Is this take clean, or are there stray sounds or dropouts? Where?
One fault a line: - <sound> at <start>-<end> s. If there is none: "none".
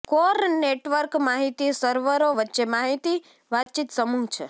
- dropout at 3.6-3.7 s